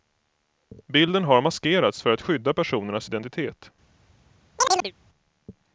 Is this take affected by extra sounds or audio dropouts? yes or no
yes